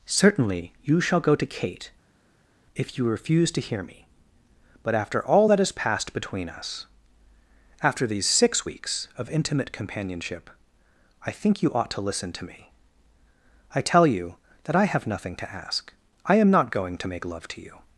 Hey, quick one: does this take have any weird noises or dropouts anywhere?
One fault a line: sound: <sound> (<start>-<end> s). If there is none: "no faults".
no faults